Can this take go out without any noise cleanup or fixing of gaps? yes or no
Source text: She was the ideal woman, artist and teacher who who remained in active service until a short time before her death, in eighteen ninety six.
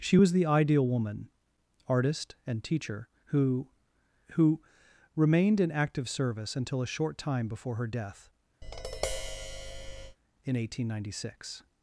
no